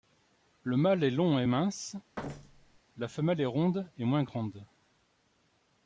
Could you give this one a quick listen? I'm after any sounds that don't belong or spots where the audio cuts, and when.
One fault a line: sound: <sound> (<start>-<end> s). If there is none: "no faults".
sound: thud (2.2-2.8 s)